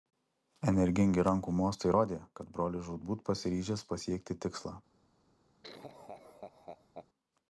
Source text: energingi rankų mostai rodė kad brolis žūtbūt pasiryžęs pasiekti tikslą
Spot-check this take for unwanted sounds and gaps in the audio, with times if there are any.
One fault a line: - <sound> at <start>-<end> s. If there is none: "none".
- laugh at 5.6-7.1 s